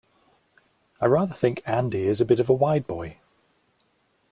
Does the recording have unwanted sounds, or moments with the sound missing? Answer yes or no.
no